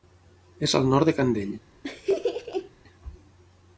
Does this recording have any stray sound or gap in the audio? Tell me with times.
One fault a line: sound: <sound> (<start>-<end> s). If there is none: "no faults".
sound: laugh (1.8-2.7 s)